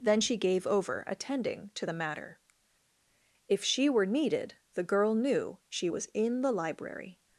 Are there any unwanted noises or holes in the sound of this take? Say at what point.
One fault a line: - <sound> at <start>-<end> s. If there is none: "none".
none